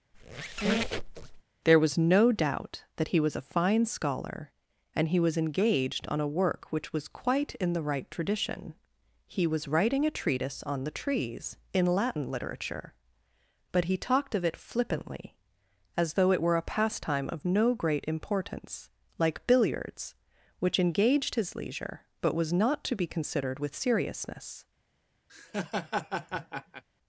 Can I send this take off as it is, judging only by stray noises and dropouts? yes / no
no